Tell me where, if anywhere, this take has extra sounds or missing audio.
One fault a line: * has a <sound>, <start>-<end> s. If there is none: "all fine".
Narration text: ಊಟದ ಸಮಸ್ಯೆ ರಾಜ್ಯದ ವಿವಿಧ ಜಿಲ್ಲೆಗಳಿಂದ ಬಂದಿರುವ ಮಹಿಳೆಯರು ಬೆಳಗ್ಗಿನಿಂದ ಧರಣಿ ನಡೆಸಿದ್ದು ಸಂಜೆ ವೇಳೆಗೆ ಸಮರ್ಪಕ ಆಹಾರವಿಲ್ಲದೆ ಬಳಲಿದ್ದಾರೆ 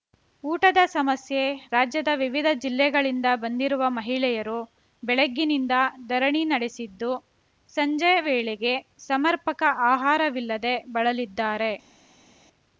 all fine